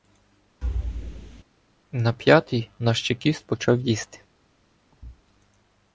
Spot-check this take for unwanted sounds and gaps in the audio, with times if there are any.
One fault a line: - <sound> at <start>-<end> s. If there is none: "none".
- thud at 0.6-1.4 s
- thud at 4.9-5.2 s